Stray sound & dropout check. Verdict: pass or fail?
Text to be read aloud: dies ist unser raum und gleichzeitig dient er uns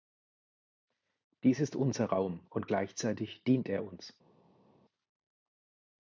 pass